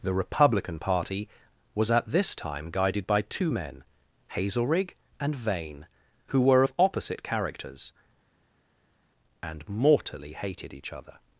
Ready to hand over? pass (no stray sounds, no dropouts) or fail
pass